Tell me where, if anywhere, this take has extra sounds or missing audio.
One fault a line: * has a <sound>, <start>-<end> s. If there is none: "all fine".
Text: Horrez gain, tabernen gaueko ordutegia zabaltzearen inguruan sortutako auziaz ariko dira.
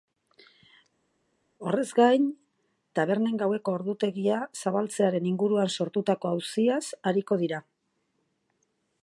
all fine